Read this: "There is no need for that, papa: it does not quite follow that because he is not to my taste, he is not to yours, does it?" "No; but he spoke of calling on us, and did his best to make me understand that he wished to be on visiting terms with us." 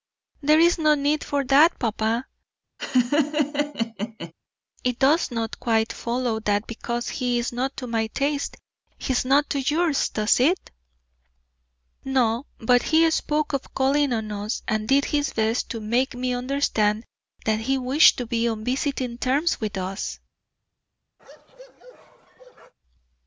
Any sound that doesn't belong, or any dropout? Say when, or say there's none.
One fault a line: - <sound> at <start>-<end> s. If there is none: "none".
- laugh at 2.8-4.3 s
- bark at 21.2-22.7 s